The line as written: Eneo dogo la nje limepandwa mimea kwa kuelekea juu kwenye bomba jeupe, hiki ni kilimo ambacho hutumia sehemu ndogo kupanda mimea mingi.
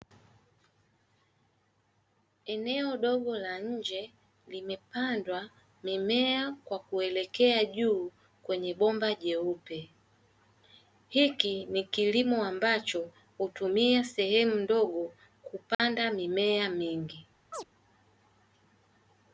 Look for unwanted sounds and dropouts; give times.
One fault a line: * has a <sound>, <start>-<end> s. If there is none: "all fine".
* has a dropout, 15.7-15.8 s
* has a chirp, 17.5-17.7 s